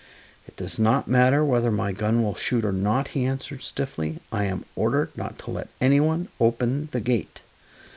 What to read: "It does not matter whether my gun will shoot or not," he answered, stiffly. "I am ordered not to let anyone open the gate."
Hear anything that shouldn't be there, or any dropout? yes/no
no